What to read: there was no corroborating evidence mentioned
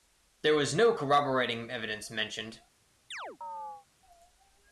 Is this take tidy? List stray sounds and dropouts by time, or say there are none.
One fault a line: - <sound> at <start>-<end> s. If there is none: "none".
- chirp at 3.1-3.9 s